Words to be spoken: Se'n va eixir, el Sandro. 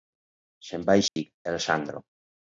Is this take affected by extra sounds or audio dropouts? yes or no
yes